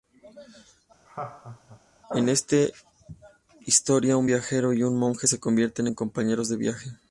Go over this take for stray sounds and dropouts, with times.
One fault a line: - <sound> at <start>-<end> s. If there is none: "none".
- laugh at 1.0-1.8 s